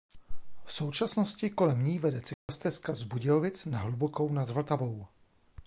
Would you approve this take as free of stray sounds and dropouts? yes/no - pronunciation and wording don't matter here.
no